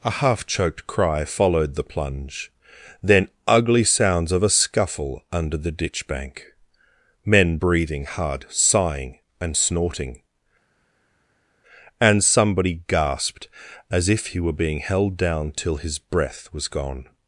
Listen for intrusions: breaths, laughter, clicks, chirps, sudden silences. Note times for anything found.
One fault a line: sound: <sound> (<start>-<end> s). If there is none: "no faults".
no faults